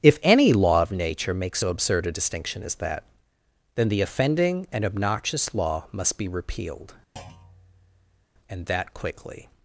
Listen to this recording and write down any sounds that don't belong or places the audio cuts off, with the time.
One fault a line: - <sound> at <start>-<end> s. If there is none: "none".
- thud at 7.2-8.3 s